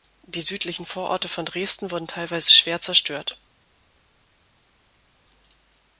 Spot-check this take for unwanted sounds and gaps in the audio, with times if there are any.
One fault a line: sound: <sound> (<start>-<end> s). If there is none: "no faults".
no faults